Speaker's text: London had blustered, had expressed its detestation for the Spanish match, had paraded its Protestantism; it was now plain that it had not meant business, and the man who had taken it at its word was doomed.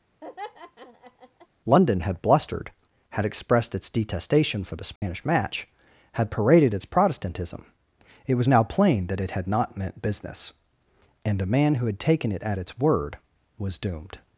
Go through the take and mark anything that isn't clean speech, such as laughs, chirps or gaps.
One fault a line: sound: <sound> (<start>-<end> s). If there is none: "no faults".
sound: laugh (0.2-1.5 s)
sound: dropout (5.0-5.0 s)